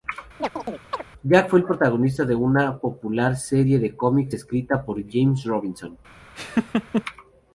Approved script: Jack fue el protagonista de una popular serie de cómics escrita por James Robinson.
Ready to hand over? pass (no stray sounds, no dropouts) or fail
fail